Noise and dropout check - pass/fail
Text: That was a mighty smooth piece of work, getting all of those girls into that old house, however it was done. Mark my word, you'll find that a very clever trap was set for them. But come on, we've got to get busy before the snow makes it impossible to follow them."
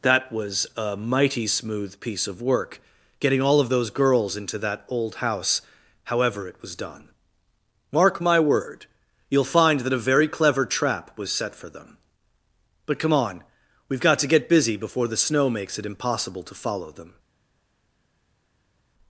pass